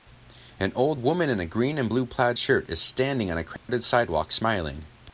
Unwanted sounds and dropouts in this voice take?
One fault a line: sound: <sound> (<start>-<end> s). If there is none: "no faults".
sound: dropout (3.6-3.7 s)